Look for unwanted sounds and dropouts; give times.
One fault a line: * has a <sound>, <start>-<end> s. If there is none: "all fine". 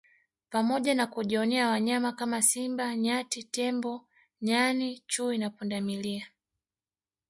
all fine